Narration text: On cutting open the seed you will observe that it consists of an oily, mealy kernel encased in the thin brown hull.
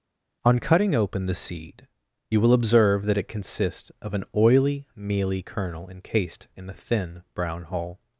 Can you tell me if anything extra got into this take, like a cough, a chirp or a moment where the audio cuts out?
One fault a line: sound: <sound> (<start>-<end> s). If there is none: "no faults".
no faults